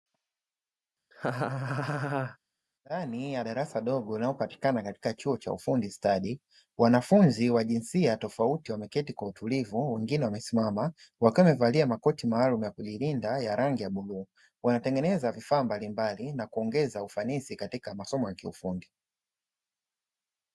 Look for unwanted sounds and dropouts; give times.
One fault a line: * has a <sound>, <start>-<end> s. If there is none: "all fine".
* has a laugh, 1.1-2.4 s